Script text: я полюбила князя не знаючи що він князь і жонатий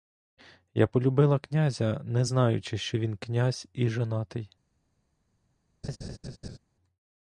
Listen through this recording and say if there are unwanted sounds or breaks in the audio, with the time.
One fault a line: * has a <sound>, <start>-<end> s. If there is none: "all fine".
* has a laugh, 5.8-6.6 s